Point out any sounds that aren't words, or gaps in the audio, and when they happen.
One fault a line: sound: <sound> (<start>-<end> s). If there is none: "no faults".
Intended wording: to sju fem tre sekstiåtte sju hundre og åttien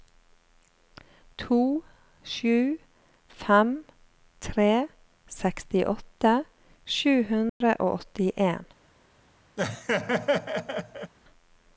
sound: dropout (7.5-7.6 s)
sound: laugh (9.6-11.1 s)